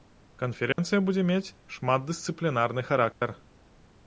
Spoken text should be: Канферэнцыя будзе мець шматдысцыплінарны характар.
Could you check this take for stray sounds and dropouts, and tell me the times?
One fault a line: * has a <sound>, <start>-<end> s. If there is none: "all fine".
* has a dropout, 0.7-0.8 s
* has a dropout, 3.1-3.2 s